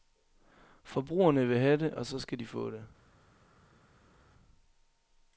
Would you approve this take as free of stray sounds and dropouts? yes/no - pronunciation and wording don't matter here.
yes